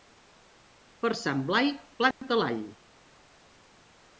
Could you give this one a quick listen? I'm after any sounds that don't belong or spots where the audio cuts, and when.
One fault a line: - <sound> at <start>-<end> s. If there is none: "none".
- dropout at 2.1-2.2 s